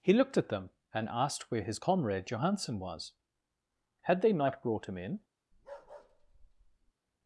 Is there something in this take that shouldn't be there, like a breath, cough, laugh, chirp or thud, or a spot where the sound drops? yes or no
yes